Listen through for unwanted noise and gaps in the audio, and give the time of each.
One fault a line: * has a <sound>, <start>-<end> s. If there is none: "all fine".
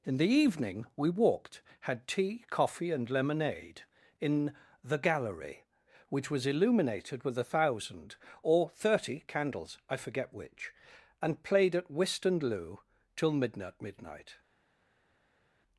all fine